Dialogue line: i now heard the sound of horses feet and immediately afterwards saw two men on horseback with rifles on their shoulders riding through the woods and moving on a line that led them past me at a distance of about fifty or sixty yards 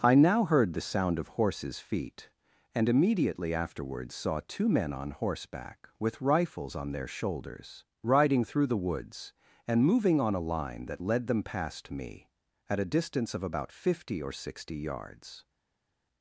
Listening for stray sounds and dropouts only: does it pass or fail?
pass